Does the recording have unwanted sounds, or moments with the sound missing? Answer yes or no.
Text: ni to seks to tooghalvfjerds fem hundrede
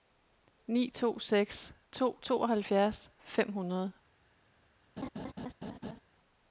yes